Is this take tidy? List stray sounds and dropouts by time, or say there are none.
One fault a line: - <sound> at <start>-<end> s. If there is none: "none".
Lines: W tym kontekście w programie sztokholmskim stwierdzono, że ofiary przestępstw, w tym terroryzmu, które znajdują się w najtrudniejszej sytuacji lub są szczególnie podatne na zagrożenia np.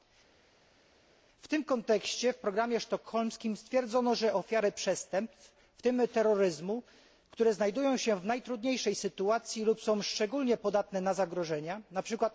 none